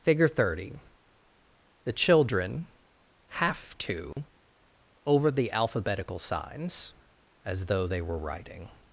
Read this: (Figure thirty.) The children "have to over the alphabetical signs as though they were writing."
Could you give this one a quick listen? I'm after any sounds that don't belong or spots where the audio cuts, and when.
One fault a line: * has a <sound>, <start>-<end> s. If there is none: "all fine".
* has a dropout, 4.1-4.2 s